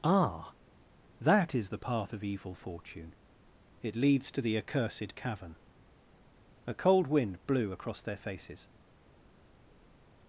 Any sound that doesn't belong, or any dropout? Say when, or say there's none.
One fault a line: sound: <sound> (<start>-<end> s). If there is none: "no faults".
no faults